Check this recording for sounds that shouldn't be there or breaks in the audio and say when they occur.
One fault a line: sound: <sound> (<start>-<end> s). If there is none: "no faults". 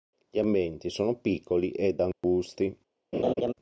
sound: dropout (2.1-2.2 s)
sound: laugh (3.1-3.5 s)